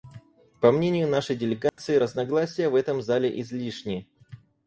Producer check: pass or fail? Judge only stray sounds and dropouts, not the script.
fail